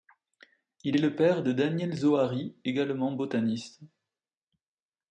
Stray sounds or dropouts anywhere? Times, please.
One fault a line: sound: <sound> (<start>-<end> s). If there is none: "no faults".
no faults